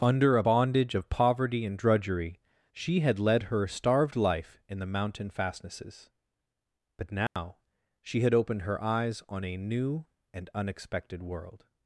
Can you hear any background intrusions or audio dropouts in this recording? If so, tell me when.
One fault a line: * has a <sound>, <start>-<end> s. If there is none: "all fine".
* has a dropout, 7.3-7.4 s